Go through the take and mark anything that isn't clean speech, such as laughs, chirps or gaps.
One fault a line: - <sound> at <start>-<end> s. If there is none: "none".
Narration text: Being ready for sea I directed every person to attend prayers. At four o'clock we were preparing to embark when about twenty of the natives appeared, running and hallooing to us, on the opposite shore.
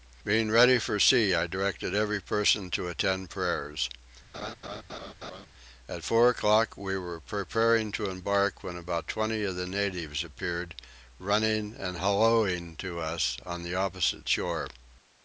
- laugh at 4.3-5.5 s